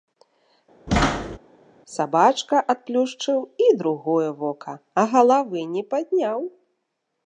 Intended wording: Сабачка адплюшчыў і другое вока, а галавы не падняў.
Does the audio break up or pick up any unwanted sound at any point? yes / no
yes